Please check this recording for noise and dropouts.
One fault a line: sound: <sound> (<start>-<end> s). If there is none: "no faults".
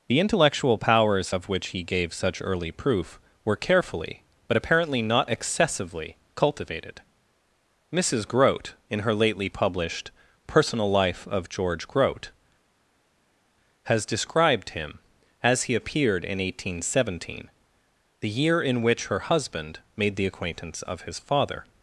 no faults